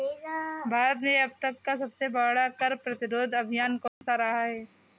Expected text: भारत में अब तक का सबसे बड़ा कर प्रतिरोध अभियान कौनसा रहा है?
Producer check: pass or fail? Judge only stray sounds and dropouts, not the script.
fail